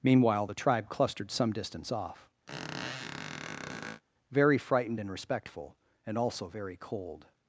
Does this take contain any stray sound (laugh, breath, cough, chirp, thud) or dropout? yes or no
yes